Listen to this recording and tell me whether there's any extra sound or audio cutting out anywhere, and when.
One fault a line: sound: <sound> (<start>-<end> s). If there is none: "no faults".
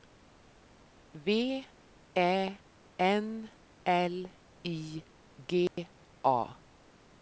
sound: dropout (5.7-5.8 s)